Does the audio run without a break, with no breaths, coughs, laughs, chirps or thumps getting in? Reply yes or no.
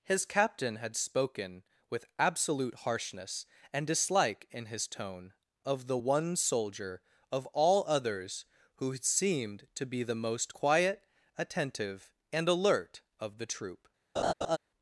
no